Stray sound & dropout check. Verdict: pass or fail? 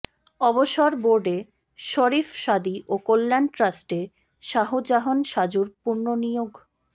pass